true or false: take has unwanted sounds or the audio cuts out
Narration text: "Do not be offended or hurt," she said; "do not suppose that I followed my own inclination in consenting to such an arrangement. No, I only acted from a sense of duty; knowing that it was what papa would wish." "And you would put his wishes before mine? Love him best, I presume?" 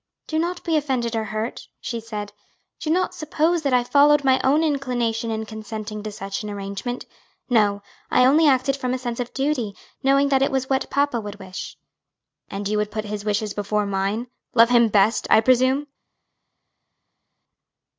false